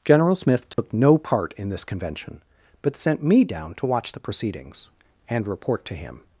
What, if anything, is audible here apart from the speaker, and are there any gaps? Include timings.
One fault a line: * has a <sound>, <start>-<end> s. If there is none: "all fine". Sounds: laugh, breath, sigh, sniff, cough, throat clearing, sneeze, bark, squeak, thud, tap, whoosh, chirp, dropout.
* has a dropout, 0.7-0.8 s